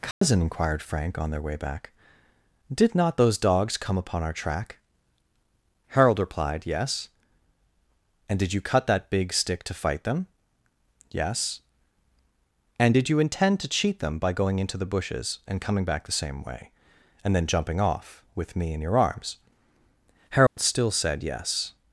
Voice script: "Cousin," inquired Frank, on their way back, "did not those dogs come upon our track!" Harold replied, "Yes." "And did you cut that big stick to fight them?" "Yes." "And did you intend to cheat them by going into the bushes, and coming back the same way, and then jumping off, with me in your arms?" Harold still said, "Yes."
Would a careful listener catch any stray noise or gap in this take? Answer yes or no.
yes